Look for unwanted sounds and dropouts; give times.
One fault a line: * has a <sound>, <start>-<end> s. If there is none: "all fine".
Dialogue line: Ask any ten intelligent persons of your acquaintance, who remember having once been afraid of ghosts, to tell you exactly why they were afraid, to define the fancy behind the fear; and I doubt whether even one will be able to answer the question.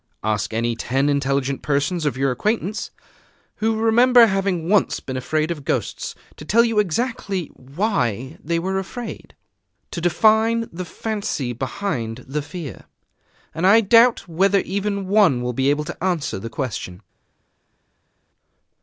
all fine